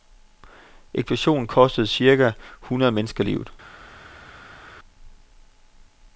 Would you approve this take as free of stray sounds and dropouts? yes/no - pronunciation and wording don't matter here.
yes